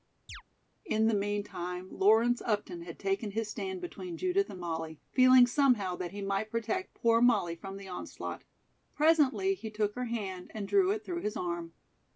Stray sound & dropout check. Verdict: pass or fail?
fail